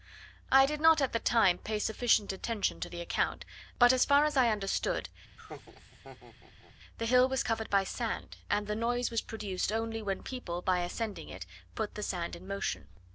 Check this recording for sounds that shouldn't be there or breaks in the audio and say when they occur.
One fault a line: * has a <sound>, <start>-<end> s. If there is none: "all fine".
* has a laugh, 5.4-6.8 s